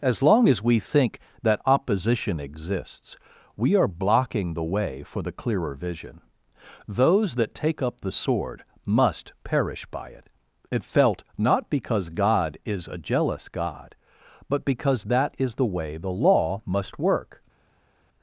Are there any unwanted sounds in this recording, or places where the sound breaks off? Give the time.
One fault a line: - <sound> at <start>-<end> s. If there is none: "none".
none